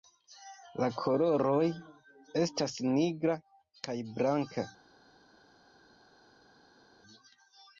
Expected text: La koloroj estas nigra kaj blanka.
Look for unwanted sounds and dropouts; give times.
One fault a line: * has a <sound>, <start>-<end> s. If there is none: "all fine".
all fine